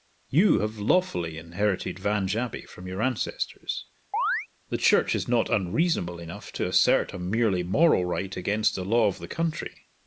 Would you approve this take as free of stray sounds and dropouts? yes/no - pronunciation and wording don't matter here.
no